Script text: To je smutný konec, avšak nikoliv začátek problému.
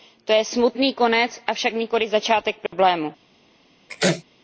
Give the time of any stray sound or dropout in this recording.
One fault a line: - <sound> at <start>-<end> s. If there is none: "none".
- dropout at 2.7-2.7 s
- sneeze at 3.9-4.2 s